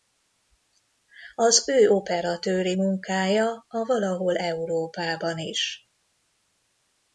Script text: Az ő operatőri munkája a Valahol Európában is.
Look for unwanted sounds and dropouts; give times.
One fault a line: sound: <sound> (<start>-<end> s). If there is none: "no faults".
no faults